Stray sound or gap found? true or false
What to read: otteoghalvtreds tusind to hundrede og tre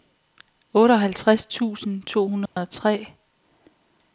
true